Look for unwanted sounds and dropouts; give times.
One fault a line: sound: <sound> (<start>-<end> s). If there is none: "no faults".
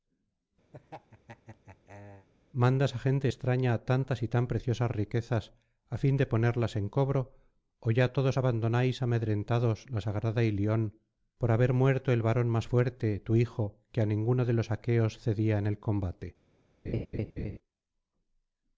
sound: laugh (0.7-2.3 s)
sound: laugh (16.9-17.6 s)